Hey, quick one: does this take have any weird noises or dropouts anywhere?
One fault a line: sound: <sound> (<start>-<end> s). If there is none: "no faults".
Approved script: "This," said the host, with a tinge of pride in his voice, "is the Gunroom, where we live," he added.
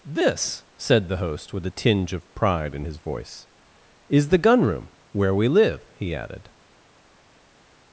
no faults